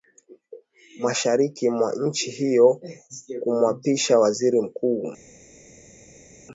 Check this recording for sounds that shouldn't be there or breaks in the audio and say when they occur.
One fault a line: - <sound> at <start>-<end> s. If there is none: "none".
none